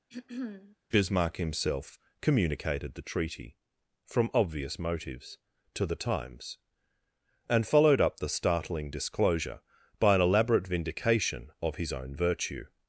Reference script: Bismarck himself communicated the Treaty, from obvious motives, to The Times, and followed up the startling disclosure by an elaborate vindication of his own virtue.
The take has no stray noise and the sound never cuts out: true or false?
false